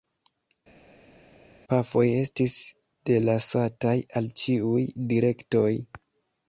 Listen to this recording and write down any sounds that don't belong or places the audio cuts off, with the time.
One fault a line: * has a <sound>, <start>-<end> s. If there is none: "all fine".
all fine